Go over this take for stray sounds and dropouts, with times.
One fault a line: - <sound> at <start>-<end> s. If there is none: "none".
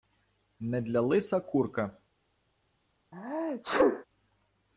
- sneeze at 3.1-4.0 s